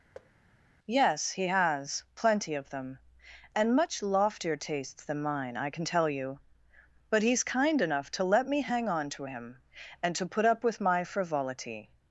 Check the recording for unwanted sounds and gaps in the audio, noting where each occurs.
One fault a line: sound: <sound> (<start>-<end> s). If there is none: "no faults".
sound: thud (0.1-0.3 s)